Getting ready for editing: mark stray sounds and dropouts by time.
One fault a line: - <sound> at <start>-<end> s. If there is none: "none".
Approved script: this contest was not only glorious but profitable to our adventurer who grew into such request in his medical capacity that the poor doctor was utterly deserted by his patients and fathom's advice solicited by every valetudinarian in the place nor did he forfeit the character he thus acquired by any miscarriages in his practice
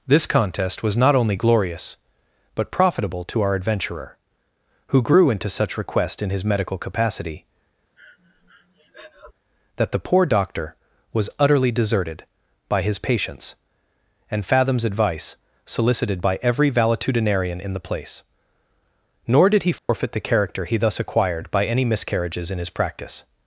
- breath at 8.0-9.3 s
- dropout at 19.8-19.9 s